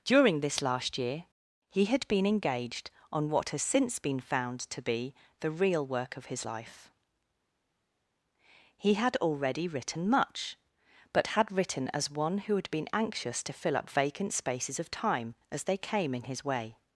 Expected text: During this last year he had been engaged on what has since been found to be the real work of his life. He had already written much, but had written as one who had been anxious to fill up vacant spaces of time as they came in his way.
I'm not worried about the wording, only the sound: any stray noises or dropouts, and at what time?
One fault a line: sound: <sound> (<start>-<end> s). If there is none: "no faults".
no faults